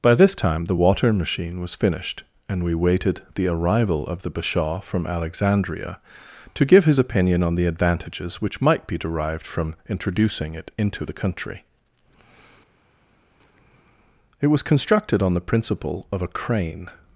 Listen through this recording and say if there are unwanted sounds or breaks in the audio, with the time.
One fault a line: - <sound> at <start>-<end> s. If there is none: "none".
none